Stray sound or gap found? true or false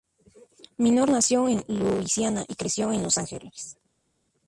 false